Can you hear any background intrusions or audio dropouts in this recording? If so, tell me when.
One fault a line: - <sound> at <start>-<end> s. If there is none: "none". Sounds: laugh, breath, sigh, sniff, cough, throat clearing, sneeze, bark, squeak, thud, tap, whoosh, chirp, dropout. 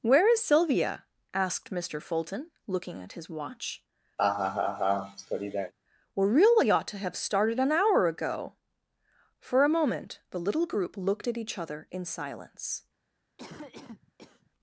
- laugh at 4.2-5.7 s
- cough at 13.4-14.5 s